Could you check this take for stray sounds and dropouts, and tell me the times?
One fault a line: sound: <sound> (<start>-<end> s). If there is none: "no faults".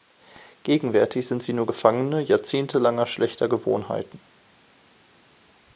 no faults